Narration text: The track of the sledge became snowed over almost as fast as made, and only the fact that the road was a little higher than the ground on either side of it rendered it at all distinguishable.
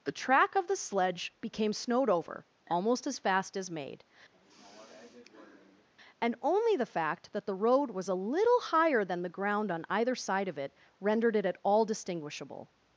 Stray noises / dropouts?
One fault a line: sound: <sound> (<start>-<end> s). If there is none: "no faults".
sound: sigh (4.3-5.9 s)